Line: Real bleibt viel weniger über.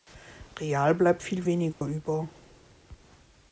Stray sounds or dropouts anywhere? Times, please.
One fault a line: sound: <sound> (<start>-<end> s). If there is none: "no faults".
sound: dropout (1.7-1.8 s)